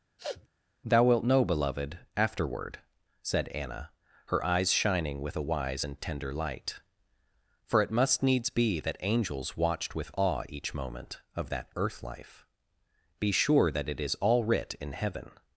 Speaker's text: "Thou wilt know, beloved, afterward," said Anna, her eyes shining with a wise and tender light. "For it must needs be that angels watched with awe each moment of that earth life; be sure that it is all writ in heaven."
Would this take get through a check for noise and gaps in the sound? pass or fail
fail